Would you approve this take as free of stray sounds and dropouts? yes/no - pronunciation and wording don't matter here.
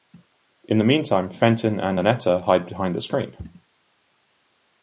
yes